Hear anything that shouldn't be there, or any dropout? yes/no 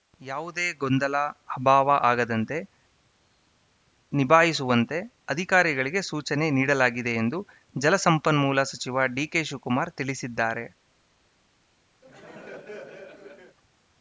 yes